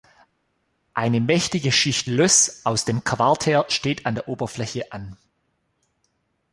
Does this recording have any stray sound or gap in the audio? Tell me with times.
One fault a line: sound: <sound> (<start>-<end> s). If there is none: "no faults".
no faults